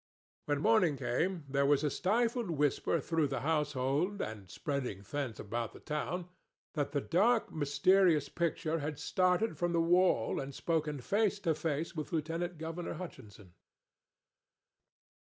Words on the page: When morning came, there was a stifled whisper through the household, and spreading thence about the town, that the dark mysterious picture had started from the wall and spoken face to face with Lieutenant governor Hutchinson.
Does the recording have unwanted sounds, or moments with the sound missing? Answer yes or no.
no